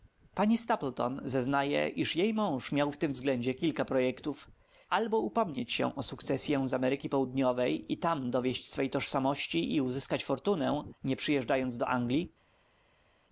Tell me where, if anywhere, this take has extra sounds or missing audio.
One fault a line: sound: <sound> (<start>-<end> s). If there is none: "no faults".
no faults